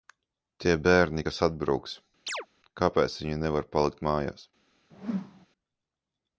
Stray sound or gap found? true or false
true